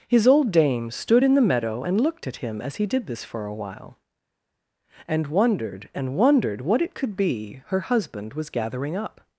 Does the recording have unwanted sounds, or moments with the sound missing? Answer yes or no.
no